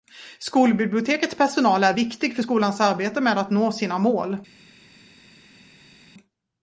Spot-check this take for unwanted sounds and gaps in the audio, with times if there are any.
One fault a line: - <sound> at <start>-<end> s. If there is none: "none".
none